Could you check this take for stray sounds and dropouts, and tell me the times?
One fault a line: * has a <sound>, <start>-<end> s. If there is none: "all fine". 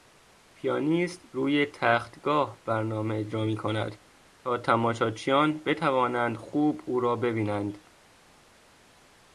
all fine